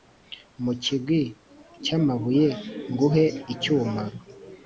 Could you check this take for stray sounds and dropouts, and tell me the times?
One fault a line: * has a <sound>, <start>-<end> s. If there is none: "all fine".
all fine